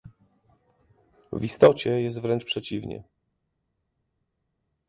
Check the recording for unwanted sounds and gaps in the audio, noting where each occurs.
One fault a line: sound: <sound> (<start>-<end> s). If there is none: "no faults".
no faults